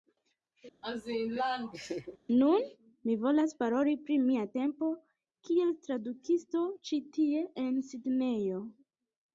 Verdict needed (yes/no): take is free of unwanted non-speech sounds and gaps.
no